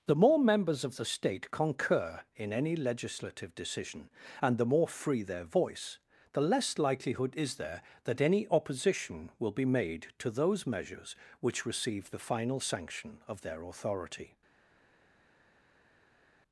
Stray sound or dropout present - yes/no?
no